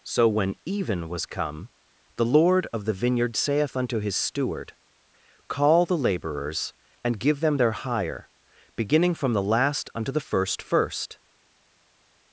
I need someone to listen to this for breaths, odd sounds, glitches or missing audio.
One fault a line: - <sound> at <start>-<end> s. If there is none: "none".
none